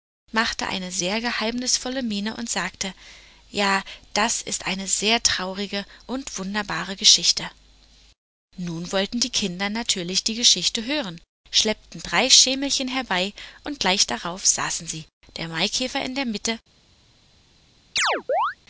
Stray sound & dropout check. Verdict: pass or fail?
fail